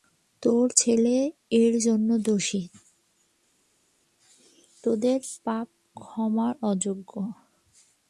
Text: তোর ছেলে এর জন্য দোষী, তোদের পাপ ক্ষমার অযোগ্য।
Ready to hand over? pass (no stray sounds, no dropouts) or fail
pass